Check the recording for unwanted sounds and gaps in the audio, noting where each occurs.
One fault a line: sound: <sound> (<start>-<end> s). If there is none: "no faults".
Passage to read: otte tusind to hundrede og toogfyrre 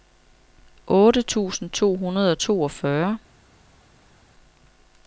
no faults